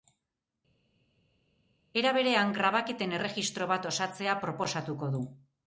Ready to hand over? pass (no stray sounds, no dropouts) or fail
pass